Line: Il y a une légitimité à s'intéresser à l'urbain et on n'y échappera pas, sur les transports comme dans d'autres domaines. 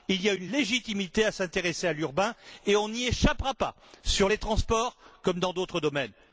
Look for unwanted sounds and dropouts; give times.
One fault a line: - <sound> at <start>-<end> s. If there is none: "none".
none